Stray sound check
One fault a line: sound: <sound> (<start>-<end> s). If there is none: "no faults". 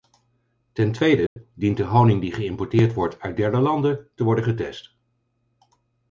sound: dropout (1.3-1.4 s)